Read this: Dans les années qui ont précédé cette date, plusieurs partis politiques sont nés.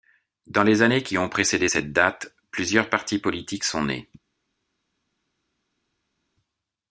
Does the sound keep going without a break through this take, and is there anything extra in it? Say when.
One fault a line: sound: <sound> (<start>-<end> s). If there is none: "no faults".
no faults